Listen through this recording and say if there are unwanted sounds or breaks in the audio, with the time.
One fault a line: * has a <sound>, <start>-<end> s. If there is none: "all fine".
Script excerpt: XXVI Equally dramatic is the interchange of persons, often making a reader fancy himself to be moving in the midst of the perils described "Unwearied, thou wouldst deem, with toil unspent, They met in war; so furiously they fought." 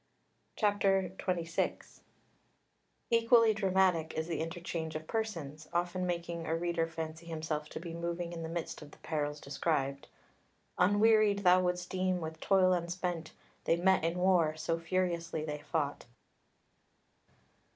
all fine